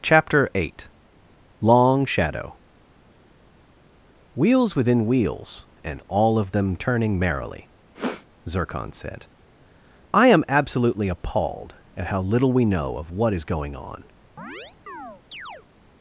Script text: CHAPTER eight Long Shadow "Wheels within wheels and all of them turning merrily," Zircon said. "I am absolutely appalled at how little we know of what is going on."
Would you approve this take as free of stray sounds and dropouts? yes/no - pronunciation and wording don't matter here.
no